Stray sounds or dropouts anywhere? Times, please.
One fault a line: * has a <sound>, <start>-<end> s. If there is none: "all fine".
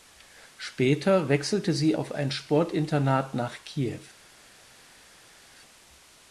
all fine